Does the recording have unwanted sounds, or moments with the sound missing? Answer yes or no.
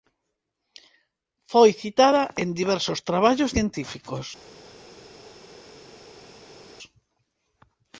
no